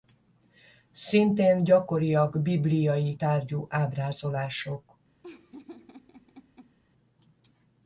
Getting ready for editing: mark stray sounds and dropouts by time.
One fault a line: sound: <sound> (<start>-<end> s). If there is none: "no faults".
sound: laugh (5.2-6.8 s)